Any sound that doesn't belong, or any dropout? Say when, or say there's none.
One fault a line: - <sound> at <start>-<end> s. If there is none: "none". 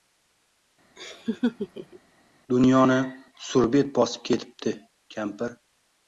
- laugh at 1.0-2.0 s